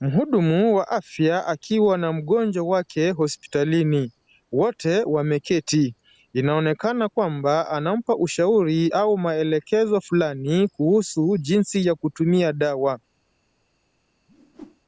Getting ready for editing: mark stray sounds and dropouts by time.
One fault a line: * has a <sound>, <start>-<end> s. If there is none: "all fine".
* has a whoosh, 14.3-14.8 s